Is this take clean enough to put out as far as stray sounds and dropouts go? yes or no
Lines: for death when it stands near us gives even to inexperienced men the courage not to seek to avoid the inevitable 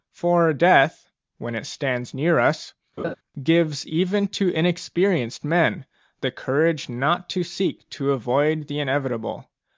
no